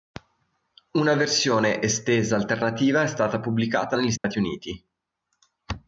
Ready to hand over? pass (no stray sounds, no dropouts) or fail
fail